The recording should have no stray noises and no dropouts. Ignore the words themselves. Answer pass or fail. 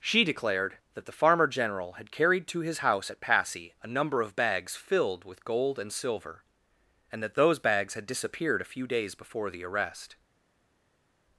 pass